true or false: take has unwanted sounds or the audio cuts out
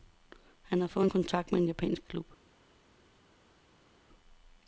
false